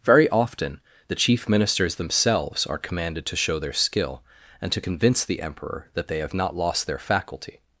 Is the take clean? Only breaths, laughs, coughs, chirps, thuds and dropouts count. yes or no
yes